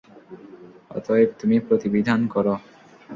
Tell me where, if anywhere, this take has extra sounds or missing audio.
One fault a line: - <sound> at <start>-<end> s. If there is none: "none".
none